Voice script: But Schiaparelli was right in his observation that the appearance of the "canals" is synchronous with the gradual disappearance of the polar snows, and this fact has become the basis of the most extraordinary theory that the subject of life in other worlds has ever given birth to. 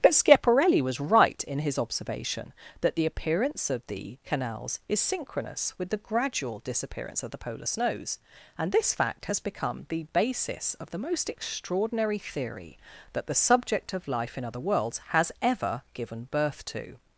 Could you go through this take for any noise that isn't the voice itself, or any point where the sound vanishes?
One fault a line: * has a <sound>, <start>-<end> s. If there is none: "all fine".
all fine